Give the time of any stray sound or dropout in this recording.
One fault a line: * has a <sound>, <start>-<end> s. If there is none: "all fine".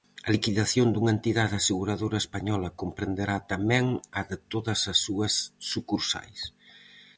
all fine